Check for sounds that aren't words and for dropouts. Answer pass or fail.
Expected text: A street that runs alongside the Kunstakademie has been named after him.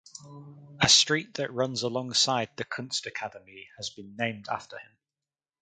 pass